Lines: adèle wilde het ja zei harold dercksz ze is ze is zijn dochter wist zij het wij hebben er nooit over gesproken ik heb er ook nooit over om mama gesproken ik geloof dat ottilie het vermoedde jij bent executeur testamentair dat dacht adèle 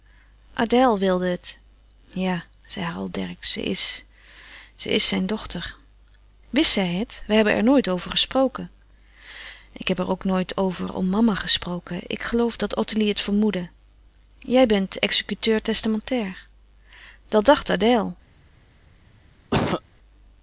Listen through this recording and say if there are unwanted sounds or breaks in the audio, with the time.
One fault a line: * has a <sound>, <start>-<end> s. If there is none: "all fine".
* has a cough, 19.5-19.8 s